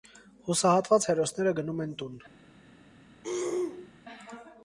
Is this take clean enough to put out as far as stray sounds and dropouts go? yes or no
no